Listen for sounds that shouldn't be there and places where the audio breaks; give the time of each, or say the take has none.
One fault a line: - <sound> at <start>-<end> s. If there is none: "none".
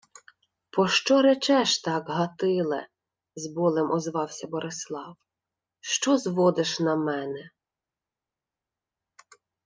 none